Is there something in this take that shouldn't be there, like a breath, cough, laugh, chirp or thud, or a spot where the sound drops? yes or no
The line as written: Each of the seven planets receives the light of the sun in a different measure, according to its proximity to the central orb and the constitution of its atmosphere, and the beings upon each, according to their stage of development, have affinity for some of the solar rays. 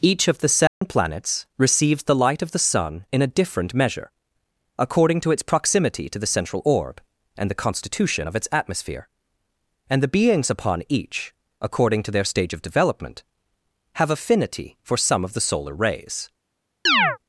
yes